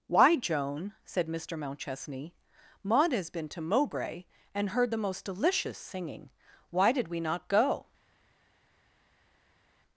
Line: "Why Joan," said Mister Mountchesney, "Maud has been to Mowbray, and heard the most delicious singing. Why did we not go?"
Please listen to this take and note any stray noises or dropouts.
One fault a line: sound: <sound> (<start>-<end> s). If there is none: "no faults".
no faults